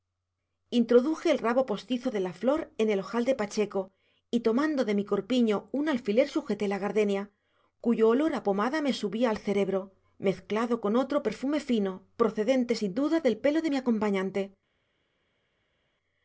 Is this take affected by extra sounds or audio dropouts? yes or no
no